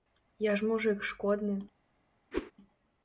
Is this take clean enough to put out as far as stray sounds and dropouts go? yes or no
no